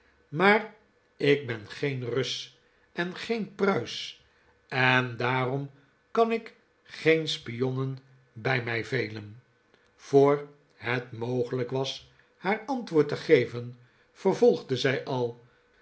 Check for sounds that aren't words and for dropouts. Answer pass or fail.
pass